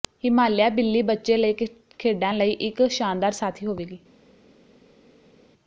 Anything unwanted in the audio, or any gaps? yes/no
no